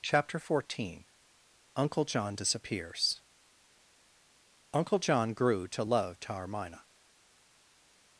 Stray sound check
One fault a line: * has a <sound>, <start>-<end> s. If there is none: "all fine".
all fine